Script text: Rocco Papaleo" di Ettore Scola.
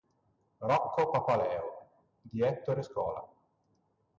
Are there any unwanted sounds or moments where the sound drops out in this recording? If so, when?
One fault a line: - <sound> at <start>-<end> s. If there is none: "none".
none